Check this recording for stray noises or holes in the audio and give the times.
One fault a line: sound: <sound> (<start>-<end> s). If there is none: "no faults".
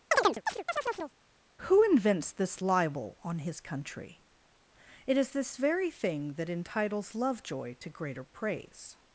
sound: chirp (0.1-1.1 s)